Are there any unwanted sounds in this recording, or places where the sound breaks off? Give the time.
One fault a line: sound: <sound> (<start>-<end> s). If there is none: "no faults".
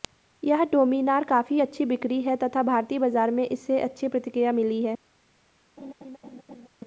sound: laugh (5.8-6.7 s)